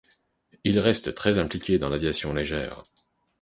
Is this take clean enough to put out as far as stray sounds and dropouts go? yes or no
yes